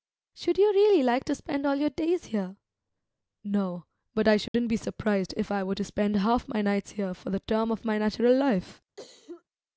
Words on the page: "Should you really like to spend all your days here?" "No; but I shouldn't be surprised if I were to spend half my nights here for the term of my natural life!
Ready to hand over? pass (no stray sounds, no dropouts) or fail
fail